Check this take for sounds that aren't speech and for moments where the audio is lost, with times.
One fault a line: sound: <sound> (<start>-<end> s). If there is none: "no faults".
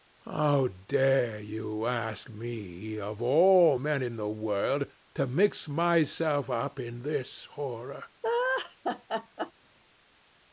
sound: laugh (8.2-9.5 s)